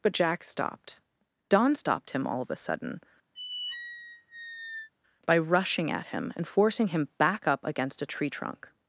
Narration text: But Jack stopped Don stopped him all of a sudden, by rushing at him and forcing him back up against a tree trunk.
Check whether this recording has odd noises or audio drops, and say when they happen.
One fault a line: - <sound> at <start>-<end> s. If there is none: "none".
- squeak at 3.3-4.9 s